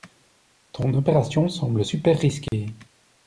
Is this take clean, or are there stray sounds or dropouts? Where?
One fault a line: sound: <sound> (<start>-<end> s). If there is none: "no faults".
sound: dropout (2.5-2.5 s)